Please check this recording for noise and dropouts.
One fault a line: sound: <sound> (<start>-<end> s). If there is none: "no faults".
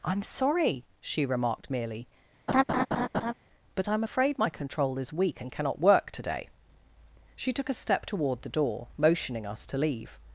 sound: laugh (2.5-3.3 s)